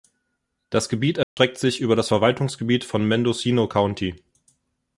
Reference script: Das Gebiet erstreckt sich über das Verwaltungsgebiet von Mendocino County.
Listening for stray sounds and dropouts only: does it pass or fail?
fail